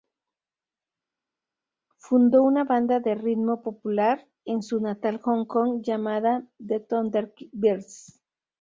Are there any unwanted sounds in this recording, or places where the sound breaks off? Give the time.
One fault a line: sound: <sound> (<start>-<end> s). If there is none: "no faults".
no faults